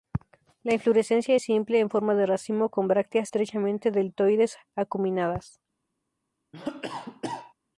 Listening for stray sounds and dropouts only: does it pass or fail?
fail